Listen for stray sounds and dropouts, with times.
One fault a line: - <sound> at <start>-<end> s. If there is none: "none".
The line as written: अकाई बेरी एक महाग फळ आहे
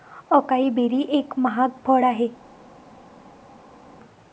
none